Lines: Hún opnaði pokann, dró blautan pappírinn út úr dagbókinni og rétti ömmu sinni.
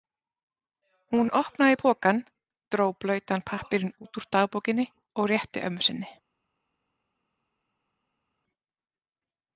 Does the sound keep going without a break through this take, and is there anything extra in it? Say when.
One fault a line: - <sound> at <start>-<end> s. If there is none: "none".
none